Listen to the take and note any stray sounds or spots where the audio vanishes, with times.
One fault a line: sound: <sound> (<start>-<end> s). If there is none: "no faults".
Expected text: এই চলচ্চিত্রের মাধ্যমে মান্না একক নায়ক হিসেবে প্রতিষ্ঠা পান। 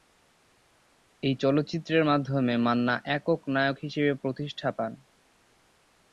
no faults